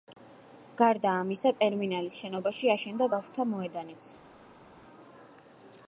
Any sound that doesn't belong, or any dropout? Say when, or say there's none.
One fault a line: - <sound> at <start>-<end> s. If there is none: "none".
none